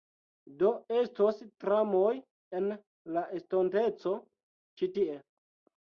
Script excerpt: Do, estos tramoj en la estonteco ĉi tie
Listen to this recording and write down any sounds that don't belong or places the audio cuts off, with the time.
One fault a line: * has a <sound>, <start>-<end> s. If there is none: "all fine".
all fine